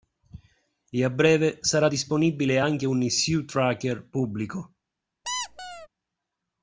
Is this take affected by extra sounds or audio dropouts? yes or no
yes